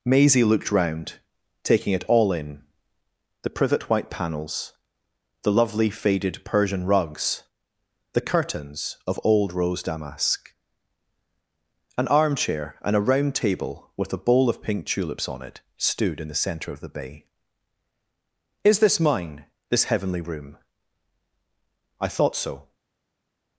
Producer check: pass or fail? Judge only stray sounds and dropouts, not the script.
pass